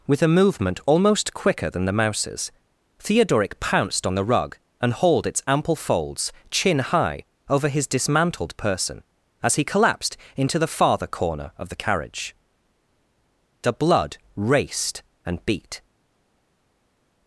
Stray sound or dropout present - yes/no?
no